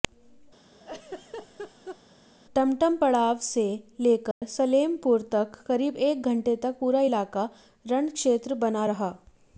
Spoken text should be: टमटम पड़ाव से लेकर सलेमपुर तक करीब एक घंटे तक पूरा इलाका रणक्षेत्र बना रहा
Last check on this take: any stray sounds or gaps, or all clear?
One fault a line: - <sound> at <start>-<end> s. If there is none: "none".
- laugh at 0.7-2.0 s
- dropout at 4.3-4.4 s